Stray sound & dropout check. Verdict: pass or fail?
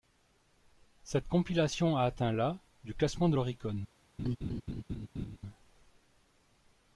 fail